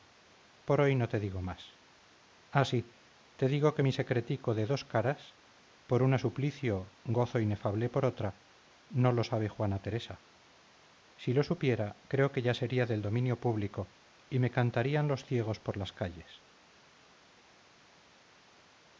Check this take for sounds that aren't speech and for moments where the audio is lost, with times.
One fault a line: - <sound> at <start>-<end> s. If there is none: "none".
none